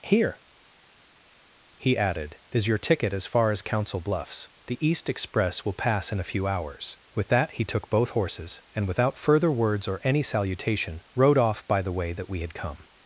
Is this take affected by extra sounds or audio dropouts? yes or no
no